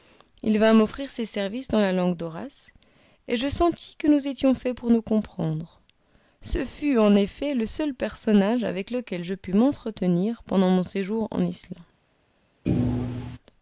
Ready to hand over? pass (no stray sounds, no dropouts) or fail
fail